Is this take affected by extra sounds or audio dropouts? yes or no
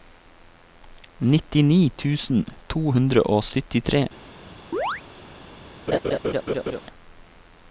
yes